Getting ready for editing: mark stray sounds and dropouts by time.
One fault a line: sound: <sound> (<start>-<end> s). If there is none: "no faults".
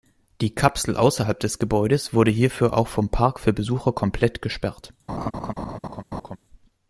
sound: laugh (5.1-6.4 s)